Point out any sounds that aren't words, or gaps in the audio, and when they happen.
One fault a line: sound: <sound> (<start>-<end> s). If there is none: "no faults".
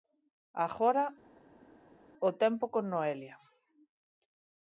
no faults